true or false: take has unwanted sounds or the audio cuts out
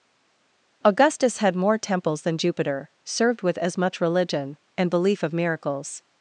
false